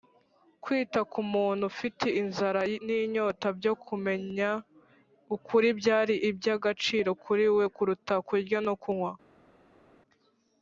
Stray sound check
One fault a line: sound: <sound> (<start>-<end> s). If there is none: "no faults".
no faults